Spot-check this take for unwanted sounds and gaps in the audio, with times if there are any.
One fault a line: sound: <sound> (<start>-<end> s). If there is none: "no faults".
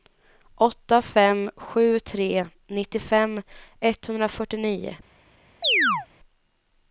sound: chirp (5.6-6.1 s)